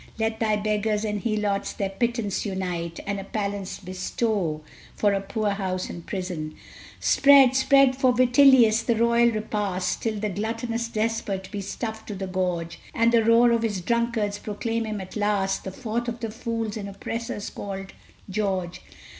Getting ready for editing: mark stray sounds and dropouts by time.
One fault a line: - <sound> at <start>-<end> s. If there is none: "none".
none